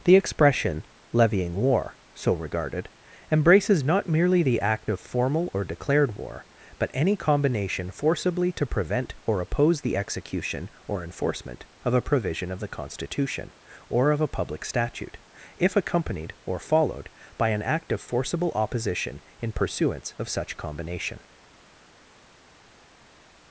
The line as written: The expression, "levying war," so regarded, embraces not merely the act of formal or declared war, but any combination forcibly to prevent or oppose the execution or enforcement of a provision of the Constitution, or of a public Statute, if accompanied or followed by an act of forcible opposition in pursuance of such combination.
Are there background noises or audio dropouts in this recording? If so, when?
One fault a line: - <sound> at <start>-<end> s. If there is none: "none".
none